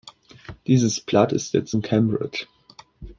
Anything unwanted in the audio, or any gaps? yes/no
no